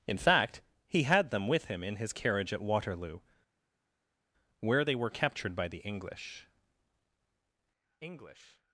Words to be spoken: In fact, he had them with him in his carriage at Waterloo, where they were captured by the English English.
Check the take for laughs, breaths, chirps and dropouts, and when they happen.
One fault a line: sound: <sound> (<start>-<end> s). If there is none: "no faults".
no faults